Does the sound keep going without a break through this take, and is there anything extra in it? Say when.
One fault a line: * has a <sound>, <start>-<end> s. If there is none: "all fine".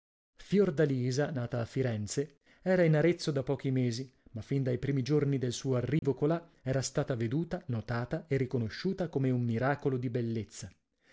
* has a dropout, 6.0-6.0 s